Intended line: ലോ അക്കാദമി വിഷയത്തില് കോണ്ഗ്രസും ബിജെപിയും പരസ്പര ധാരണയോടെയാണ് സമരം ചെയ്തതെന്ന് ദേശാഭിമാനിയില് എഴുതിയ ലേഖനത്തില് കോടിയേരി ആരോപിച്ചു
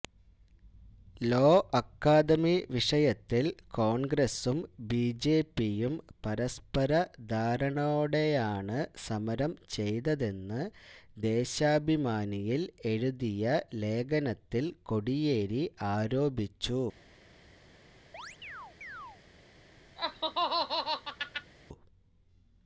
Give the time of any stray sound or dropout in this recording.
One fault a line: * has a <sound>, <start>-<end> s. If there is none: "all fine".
* has a chirp, 18.1-19.2 s
* has a laugh, 20.0-21.5 s